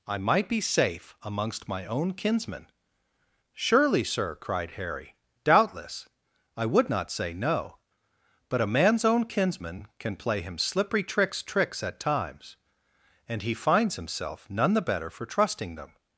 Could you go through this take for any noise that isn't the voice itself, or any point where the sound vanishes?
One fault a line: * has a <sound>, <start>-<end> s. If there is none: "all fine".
all fine